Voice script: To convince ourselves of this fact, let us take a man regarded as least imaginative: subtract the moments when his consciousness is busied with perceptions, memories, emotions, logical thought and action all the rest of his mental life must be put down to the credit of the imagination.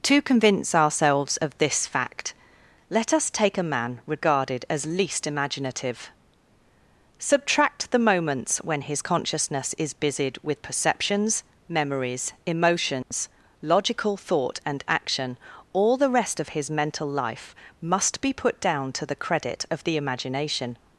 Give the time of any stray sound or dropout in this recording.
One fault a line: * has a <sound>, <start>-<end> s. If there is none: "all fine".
* has a dropout, 13.0-13.1 s